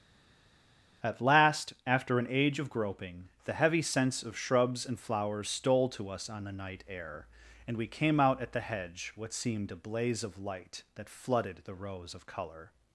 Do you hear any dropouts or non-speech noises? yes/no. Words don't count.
no